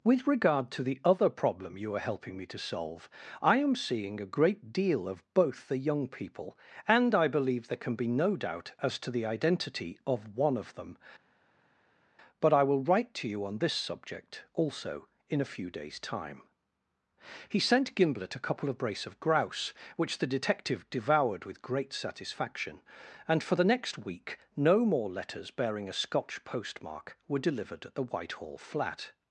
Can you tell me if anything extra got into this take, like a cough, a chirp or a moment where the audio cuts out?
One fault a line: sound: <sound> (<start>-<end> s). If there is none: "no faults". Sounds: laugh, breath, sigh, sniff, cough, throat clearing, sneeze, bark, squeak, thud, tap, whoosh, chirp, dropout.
no faults